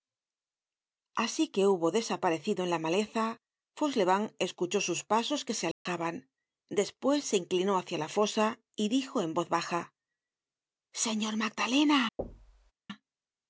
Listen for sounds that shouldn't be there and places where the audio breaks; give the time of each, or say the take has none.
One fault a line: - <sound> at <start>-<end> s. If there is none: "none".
- dropout at 5.7-5.9 s
- thud at 12.2-12.7 s